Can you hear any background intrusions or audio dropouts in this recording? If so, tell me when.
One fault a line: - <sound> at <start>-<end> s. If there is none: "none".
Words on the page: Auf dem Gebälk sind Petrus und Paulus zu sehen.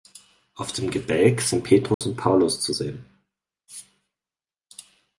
- dropout at 1.9-2.0 s